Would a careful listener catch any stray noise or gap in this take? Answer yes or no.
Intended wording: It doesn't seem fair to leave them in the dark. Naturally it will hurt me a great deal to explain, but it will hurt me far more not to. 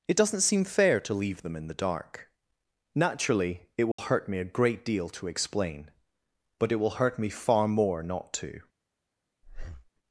yes